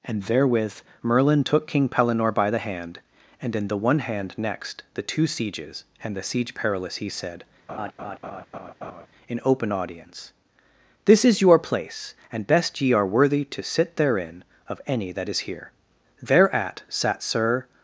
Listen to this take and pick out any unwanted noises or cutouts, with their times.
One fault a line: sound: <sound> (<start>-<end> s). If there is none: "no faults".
sound: laugh (7.7-9.1 s)